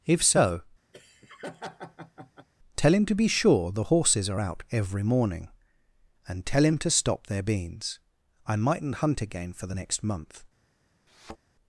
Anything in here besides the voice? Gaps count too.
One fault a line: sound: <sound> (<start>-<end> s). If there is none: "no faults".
sound: laugh (0.9-2.5 s)
sound: thud (11.1-11.4 s)